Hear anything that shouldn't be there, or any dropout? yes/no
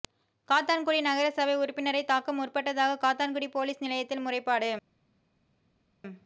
no